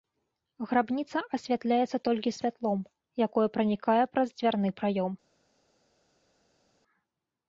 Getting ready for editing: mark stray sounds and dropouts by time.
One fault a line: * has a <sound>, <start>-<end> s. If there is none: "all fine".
all fine